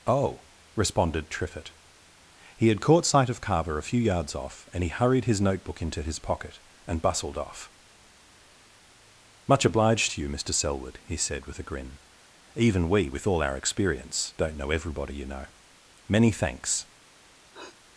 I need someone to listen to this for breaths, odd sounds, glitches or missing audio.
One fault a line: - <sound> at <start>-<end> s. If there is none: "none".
- sniff at 17.5-17.8 s